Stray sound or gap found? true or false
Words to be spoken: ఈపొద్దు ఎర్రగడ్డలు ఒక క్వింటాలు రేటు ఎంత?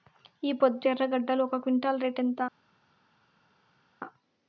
false